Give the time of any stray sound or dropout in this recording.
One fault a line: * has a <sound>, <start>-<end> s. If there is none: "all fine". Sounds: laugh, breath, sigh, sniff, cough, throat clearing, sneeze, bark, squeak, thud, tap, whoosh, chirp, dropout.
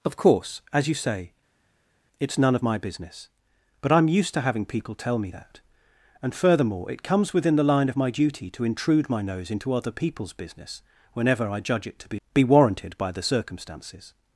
all fine